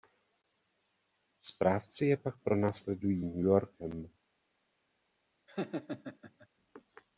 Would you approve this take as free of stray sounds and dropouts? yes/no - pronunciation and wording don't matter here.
no